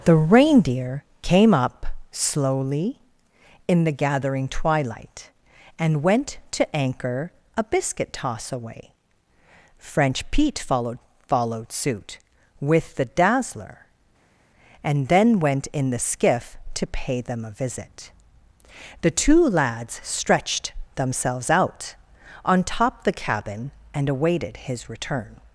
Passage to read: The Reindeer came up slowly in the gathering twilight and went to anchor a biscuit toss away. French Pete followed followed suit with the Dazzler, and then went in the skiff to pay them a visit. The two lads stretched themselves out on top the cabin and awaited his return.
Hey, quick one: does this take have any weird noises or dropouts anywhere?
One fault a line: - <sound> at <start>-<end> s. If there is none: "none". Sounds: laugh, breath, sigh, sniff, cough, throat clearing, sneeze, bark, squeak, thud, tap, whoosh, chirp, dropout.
none